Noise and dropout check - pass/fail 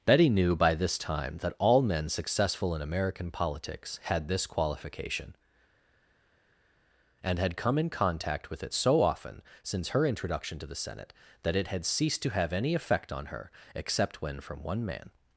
pass